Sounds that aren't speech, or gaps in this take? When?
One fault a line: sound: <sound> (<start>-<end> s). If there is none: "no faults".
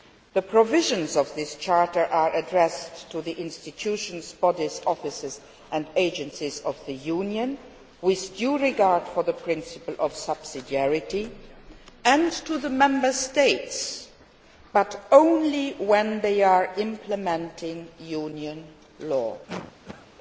sound: cough (19.5-20.1 s)